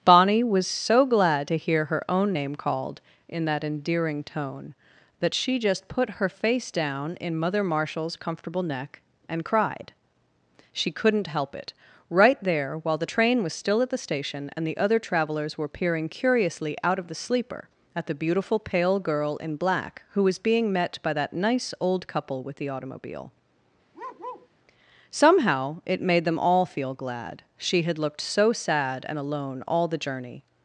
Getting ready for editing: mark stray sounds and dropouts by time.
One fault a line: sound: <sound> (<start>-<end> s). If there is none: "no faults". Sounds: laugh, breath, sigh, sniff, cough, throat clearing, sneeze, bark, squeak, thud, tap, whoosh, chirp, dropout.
sound: bark (23.9-24.5 s)